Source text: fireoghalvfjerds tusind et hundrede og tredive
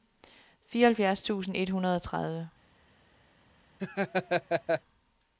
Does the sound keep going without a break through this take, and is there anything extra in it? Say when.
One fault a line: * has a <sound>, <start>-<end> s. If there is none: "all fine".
* has a laugh, 3.8-4.8 s